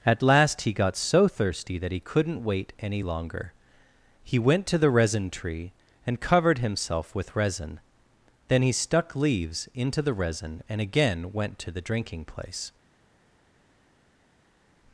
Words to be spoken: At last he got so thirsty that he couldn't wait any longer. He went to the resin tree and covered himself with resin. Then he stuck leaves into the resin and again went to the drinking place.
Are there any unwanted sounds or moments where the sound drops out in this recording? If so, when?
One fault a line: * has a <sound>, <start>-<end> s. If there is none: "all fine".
all fine